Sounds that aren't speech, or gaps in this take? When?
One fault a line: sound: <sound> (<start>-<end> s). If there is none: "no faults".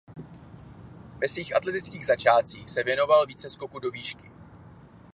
no faults